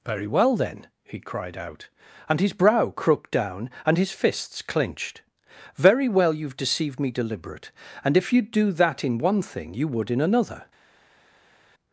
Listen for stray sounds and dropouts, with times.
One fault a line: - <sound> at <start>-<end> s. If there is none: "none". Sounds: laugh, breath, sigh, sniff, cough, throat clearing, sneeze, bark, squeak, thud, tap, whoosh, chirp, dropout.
none